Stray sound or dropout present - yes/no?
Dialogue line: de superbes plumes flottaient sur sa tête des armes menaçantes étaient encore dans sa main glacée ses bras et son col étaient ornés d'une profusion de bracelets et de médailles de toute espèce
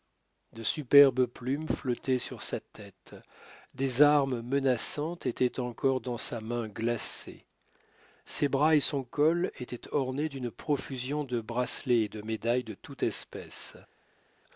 no